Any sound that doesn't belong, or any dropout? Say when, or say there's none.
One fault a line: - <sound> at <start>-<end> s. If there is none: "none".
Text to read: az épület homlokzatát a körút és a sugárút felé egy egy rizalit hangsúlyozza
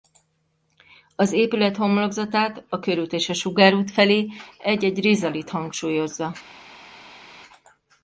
none